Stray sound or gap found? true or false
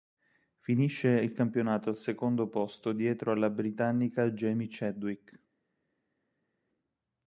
false